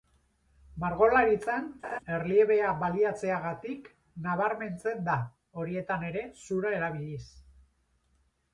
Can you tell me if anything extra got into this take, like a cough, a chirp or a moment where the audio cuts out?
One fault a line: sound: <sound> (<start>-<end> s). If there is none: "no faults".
sound: laugh (1.8-2.0 s)